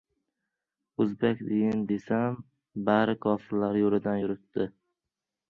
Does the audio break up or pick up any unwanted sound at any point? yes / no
no